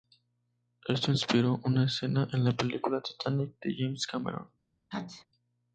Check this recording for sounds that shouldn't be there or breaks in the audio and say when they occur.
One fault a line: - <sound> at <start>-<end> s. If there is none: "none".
- sneeze at 4.9-5.3 s